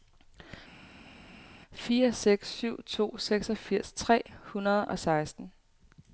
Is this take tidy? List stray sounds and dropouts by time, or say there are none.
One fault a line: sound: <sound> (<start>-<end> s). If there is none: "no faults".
no faults